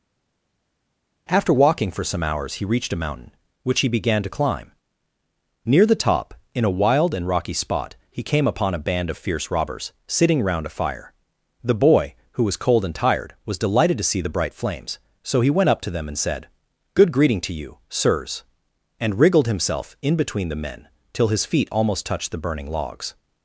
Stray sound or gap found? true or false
false